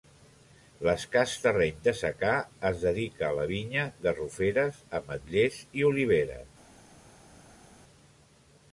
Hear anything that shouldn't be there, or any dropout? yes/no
no